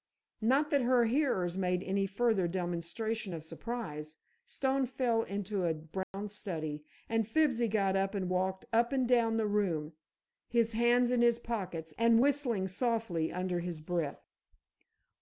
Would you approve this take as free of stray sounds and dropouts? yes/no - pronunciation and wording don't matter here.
no